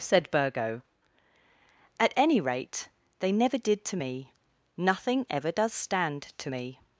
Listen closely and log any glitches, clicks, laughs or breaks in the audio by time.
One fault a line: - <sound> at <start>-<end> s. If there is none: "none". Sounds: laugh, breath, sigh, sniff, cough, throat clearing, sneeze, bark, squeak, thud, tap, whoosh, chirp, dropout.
none